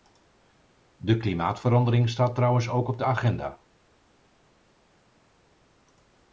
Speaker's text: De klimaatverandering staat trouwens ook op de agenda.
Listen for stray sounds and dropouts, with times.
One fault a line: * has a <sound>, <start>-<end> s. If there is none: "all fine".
all fine